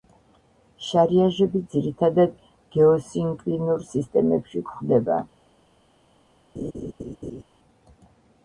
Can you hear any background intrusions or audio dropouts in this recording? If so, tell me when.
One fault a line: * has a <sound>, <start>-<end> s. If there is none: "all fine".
* has a laugh, 6.6-7.4 s